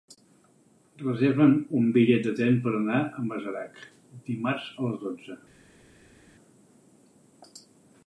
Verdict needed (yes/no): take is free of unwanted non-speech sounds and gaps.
yes